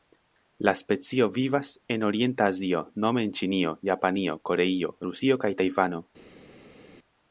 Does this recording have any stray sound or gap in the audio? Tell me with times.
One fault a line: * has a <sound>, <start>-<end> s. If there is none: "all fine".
all fine